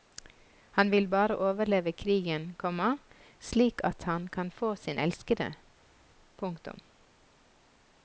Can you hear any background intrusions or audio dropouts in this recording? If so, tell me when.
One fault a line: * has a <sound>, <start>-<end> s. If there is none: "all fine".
all fine